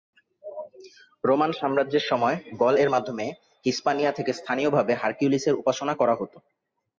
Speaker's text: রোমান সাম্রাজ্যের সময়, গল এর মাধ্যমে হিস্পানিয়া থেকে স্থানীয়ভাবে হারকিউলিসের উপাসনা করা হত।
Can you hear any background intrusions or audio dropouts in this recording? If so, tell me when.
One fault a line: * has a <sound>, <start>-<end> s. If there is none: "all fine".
all fine